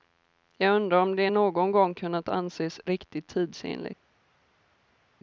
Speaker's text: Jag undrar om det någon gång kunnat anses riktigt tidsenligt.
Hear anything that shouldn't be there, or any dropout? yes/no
no